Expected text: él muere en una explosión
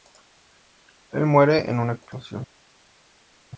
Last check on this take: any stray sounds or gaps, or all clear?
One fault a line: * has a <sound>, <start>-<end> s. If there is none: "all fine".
all fine